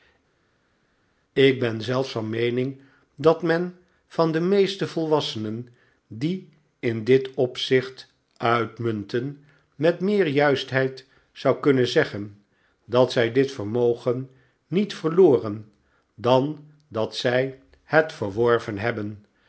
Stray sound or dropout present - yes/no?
no